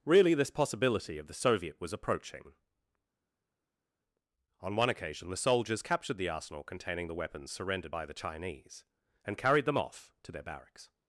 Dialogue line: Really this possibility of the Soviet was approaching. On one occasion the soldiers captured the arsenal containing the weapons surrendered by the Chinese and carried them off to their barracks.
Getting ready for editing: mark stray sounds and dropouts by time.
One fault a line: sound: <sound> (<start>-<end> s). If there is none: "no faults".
no faults